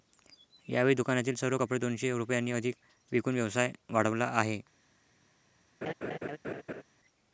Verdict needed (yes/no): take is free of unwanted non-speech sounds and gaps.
no